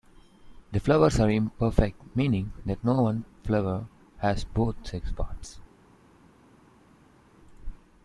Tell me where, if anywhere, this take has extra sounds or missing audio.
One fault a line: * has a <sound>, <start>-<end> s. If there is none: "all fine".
all fine